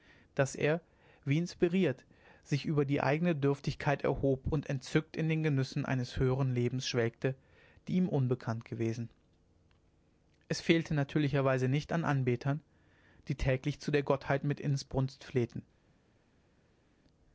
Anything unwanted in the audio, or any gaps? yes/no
no